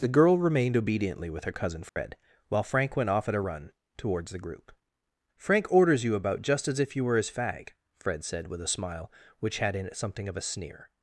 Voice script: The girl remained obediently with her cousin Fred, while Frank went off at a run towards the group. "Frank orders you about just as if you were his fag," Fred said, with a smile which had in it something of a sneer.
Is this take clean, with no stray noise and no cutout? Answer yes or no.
no